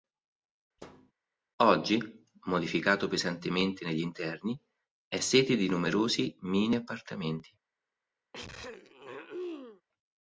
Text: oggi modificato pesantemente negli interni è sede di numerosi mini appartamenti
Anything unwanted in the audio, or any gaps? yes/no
yes